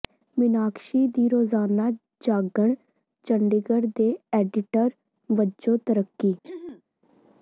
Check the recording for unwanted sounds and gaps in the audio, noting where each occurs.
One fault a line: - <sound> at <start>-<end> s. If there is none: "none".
- throat clearing at 6.4-6.8 s